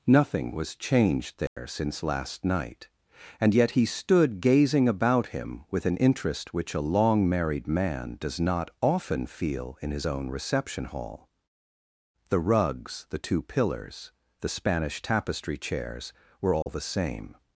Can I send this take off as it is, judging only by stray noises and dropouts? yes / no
no